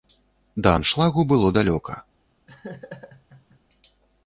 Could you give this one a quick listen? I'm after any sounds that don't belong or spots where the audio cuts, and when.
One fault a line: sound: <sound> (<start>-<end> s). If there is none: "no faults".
sound: laugh (2.5-3.6 s)